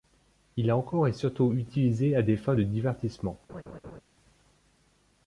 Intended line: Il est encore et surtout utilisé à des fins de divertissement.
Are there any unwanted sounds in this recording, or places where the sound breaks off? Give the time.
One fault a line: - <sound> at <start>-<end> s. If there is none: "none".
- laugh at 3.5-4.0 s